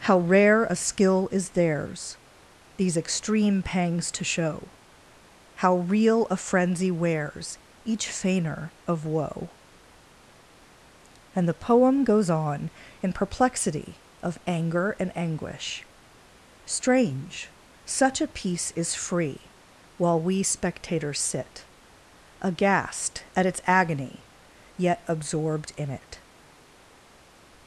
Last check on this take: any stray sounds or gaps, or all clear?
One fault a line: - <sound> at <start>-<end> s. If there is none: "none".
none